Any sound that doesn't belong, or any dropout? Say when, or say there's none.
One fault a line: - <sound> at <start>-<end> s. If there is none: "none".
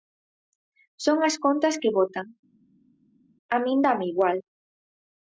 none